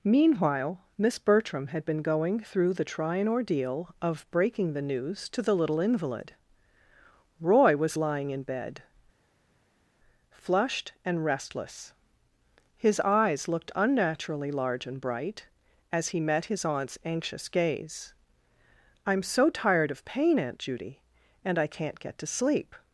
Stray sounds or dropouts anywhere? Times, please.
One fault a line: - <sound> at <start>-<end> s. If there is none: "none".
none